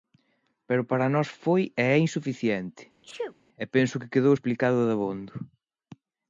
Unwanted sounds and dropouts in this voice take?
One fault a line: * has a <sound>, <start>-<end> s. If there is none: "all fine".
* has a sneeze, 3.0-3.4 s